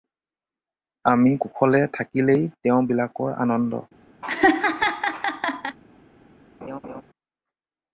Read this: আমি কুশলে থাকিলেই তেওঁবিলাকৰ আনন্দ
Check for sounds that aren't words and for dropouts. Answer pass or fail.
fail